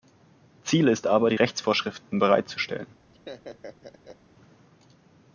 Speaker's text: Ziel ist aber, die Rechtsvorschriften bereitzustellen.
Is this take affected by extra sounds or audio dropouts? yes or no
yes